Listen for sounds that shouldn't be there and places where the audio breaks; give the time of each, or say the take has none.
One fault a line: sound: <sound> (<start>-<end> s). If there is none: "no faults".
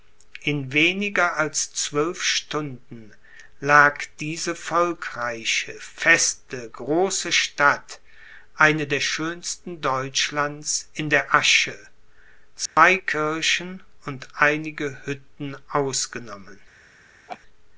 sound: dropout (12.7-12.8 s)
sound: laugh (17.3-17.4 s)